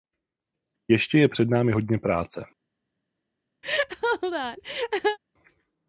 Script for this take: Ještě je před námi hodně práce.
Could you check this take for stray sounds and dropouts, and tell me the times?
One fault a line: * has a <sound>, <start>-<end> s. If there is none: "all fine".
* has a laugh, 3.6-5.2 s